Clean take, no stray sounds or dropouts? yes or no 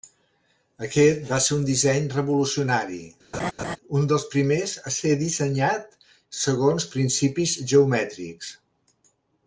no